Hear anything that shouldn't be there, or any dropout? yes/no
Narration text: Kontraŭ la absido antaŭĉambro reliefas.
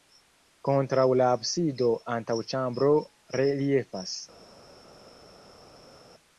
no